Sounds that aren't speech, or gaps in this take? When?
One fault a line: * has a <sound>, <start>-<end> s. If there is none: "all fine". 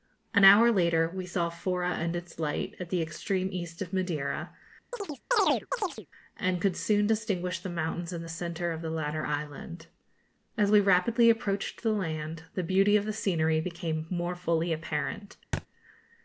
* has a chirp, 4.9-6.1 s
* has a thud, 15.5-15.7 s